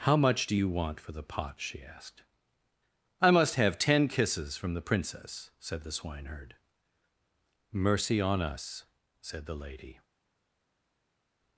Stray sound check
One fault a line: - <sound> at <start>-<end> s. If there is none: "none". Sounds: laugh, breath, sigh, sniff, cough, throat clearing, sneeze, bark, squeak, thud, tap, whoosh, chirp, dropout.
none